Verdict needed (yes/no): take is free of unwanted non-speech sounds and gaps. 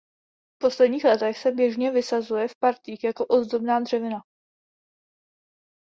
yes